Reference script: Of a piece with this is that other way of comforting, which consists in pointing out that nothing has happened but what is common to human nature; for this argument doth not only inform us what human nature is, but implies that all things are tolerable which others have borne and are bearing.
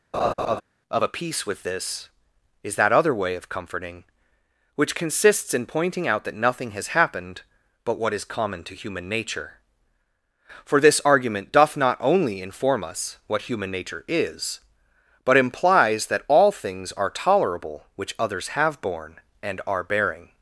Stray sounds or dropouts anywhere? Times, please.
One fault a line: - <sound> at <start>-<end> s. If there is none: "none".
- laugh at 0.1-0.6 s